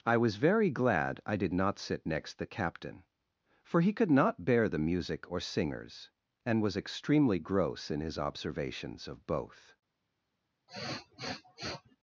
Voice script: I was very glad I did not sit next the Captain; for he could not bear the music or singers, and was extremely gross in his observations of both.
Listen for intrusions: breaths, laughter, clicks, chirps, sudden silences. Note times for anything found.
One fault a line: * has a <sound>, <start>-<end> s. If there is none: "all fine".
* has a sniff, 10.7-12.0 s